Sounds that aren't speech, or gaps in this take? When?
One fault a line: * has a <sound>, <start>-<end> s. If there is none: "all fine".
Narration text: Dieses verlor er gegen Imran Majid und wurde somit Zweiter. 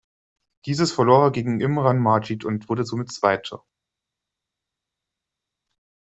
all fine